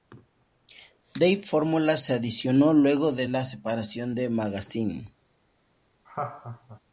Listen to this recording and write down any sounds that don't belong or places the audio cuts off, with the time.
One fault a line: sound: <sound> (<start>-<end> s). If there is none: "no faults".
sound: laugh (6.0-6.8 s)